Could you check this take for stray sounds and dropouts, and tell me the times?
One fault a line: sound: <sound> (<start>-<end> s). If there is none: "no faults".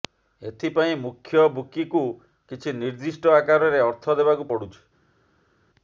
no faults